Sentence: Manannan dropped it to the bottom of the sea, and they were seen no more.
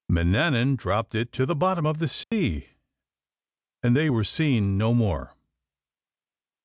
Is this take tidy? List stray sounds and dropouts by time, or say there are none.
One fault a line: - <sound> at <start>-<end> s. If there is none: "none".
- dropout at 2.2-2.3 s